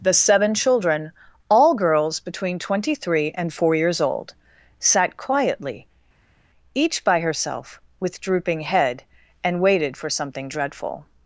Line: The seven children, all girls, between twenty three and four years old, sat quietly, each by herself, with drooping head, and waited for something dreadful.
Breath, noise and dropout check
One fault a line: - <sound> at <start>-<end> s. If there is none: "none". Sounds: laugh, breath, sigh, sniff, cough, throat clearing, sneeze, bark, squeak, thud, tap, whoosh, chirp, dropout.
none